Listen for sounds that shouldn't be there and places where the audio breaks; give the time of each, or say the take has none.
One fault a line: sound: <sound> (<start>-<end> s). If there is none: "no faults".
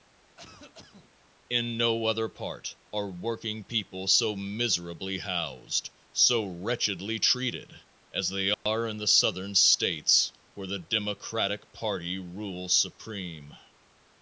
sound: cough (0.4-1.1 s)
sound: dropout (8.5-8.7 s)